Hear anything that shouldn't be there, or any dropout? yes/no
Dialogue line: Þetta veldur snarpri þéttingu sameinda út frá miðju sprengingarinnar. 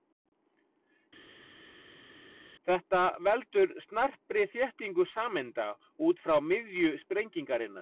no